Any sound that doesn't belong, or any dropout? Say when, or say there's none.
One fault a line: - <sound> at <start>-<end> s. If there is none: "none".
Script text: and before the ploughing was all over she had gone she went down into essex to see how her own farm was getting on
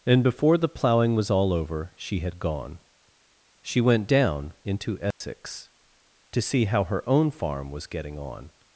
- dropout at 5.1-5.2 s